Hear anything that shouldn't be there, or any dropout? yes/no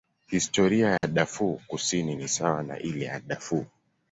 yes